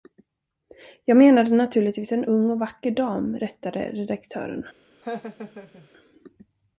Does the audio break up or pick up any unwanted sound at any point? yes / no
yes